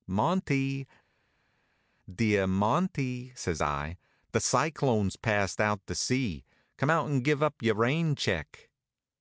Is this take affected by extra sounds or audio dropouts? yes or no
no